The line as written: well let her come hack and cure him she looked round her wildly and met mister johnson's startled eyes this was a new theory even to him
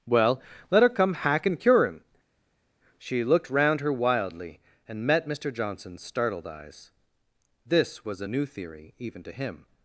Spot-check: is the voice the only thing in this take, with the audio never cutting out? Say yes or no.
yes